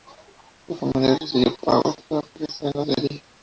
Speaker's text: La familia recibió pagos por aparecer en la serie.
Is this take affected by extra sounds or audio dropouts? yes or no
no